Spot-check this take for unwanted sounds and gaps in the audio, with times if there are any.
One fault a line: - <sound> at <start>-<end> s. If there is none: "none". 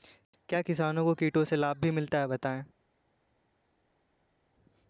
none